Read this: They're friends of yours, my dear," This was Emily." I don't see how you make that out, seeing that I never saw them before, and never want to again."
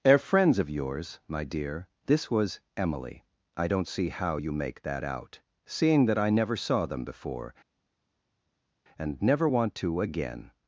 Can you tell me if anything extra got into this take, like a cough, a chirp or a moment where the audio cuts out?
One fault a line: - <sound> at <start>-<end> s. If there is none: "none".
none